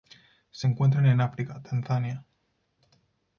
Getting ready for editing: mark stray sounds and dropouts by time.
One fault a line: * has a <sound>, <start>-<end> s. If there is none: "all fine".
all fine